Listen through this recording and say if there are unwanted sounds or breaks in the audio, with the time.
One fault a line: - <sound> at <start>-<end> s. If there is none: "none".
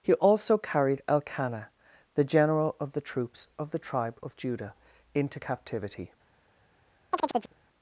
- chirp at 7.1-7.5 s